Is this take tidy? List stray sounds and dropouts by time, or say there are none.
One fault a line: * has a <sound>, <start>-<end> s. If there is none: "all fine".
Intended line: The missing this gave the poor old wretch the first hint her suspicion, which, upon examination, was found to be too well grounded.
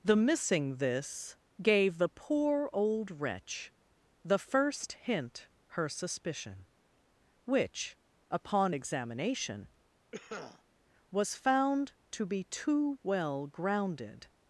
* has a cough, 10.1-10.6 s